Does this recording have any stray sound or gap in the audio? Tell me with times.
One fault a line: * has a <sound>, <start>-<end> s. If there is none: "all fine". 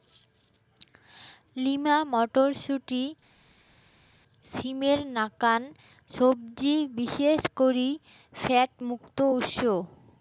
all fine